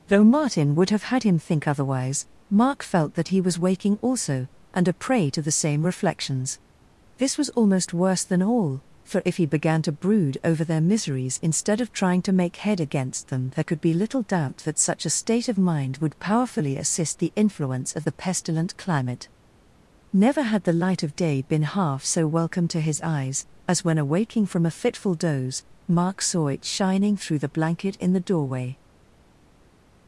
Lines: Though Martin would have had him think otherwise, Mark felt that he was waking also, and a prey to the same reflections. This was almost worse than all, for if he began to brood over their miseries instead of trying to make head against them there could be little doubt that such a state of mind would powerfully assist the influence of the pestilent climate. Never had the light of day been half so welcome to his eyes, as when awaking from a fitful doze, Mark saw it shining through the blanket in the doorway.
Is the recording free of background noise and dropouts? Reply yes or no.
yes